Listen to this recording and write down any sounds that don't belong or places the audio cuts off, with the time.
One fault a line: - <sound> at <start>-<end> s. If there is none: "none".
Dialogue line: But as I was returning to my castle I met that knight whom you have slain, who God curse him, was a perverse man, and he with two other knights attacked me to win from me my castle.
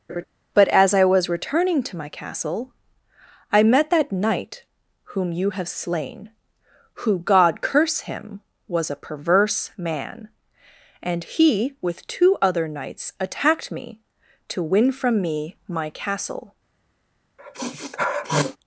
- laugh at 0.1-0.2 s
- sniff at 17.4-18.6 s